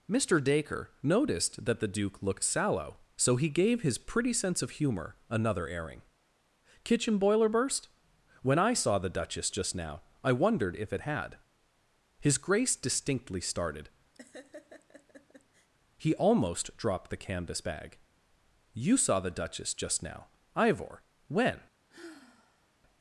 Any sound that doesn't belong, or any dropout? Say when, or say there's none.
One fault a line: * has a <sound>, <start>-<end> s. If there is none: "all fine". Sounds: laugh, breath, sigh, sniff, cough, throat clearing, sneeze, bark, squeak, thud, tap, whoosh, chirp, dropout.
* has a laugh, 14.1-15.7 s
* has a sigh, 21.9-22.7 s